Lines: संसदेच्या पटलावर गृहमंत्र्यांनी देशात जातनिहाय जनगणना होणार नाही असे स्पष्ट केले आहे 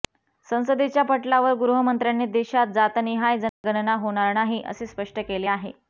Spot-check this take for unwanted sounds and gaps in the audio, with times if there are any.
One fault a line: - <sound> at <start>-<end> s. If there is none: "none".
- dropout at 3.5-3.6 s